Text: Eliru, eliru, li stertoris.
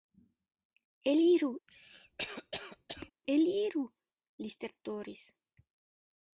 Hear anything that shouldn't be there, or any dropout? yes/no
yes